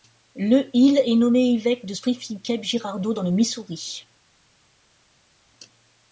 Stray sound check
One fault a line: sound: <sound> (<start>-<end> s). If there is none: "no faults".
no faults